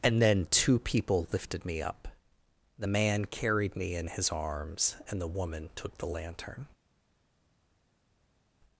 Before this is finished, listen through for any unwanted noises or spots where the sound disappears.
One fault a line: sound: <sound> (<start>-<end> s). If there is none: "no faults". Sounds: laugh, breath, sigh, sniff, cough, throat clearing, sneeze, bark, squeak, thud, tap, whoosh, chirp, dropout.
no faults